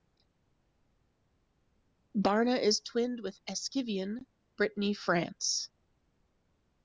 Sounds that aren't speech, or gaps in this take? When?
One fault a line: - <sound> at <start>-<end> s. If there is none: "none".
none